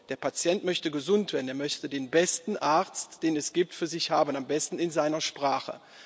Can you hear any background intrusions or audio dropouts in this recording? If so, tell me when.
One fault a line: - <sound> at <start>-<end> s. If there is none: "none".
none